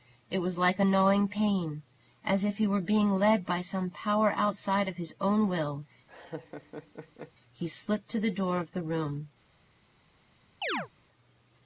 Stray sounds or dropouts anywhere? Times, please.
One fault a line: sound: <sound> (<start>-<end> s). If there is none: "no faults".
sound: laugh (6.1-7.3 s)
sound: chirp (10.6-10.9 s)